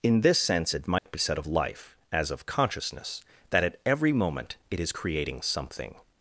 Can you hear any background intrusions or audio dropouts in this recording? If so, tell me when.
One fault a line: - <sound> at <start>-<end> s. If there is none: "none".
- dropout at 1.0-1.1 s